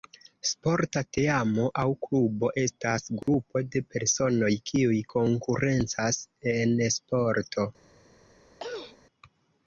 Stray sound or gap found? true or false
true